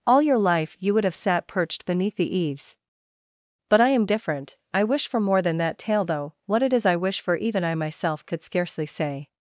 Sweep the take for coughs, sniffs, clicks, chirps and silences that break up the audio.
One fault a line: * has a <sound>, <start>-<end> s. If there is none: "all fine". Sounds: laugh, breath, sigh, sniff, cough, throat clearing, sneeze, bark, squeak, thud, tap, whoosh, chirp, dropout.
all fine